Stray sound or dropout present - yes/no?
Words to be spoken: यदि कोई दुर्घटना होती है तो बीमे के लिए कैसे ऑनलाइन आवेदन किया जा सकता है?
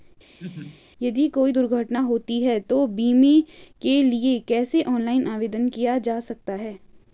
yes